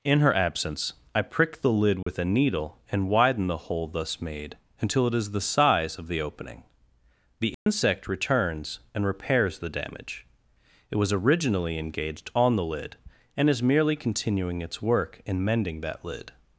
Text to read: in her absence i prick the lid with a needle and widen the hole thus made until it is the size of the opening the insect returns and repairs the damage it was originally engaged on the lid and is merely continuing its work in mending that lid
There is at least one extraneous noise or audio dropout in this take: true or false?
true